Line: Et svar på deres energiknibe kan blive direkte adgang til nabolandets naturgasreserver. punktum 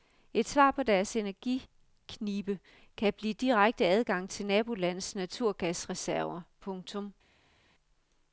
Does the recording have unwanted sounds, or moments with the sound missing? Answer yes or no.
no